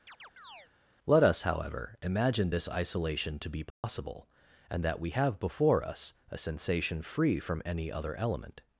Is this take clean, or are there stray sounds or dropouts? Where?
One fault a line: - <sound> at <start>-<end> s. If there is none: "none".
- chirp at 0.1-0.7 s
- dropout at 3.7-3.8 s